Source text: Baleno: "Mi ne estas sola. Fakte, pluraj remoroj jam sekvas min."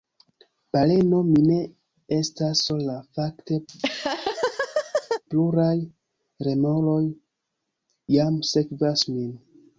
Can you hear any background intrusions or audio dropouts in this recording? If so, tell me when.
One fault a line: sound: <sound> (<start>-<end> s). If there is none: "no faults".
sound: laugh (3.7-5.2 s)